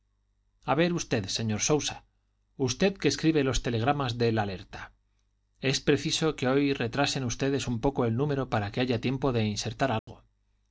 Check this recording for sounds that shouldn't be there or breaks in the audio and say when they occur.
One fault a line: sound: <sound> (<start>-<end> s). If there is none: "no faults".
sound: dropout (10.0-10.1 s)